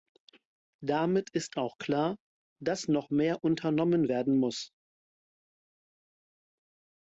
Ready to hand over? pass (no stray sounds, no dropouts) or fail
pass